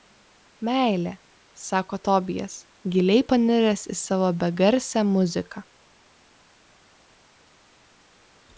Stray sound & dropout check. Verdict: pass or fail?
pass